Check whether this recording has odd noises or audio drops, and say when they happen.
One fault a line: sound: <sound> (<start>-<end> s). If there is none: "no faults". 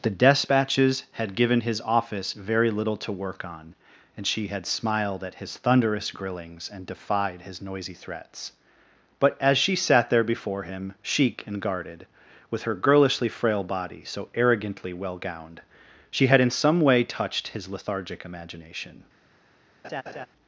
sound: laugh (19.8-20.3 s)